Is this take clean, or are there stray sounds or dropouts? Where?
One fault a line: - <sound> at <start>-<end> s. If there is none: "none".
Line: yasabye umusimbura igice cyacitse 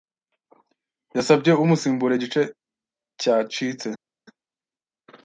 none